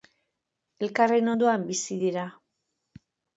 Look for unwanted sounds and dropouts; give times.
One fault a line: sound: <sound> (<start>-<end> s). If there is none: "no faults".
no faults